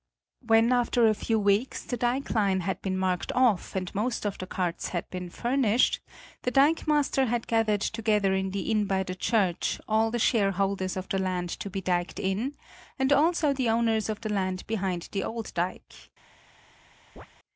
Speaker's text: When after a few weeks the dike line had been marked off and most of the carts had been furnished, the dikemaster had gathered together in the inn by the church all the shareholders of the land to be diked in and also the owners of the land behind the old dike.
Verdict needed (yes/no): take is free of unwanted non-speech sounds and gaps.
no